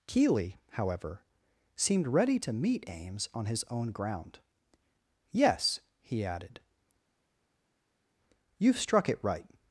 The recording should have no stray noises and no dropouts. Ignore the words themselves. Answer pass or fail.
pass